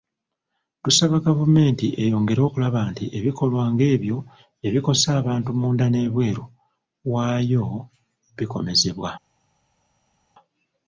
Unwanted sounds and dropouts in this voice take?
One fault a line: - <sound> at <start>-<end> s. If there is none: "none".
none